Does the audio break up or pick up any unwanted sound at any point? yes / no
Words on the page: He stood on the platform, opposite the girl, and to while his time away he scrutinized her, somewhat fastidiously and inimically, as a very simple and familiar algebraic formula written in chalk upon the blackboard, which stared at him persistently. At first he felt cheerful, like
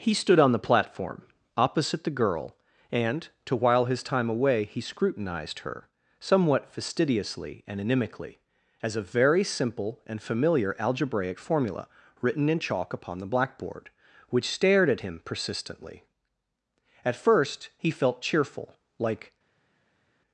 no